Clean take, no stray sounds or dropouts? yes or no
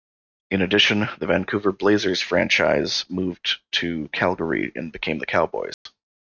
no